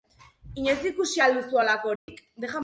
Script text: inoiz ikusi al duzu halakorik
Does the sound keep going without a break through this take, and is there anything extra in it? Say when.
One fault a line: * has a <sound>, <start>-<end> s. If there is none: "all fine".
* has a dropout, 2.0-2.1 s